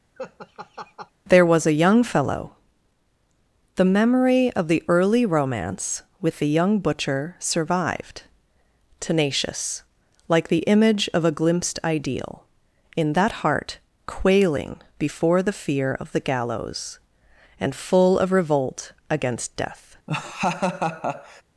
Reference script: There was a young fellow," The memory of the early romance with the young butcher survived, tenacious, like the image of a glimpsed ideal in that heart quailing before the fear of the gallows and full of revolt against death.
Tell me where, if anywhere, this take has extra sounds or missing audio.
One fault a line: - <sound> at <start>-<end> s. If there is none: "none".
- laugh at 0.2-1.1 s
- laugh at 20.1-21.4 s